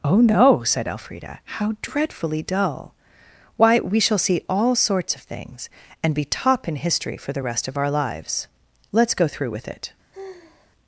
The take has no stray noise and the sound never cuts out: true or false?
false